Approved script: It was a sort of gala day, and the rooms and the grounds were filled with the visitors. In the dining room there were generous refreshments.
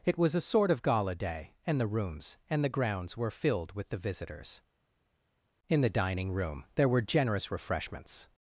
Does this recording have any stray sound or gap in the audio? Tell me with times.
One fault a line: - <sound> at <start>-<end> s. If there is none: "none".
none